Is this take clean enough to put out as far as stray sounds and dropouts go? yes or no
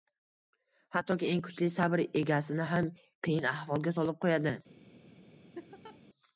no